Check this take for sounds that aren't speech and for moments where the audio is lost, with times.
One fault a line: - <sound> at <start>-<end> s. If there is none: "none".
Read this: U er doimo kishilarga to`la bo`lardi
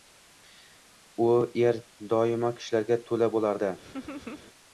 - laugh at 3.8-4.5 s